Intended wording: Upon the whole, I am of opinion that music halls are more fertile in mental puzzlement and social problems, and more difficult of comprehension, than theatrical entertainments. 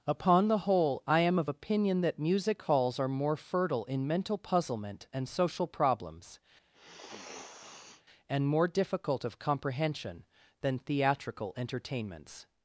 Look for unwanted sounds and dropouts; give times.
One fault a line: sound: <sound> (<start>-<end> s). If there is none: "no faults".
sound: sniff (6.7-8.0 s)